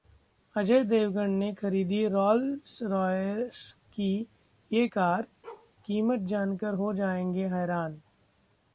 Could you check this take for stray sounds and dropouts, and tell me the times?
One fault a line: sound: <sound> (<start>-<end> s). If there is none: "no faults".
sound: bark (5.4-5.7 s)